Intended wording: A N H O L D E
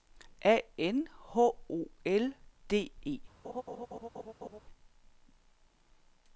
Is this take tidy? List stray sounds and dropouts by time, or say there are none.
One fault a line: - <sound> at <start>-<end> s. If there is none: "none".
- laugh at 3.4-4.6 s